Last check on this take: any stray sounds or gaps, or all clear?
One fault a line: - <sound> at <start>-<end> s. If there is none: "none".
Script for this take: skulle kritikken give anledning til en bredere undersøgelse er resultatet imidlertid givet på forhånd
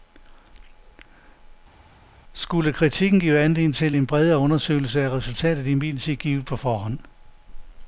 none